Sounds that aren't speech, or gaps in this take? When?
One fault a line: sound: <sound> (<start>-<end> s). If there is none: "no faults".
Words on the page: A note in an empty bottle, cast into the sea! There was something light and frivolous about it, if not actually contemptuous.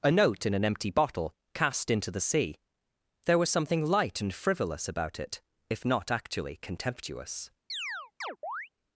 sound: chirp (7.7-8.7 s)